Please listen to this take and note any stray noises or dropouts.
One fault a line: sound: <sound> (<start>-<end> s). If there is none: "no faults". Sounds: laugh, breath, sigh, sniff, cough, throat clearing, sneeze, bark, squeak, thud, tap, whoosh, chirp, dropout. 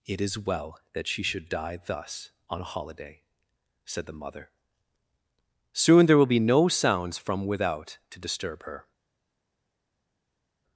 no faults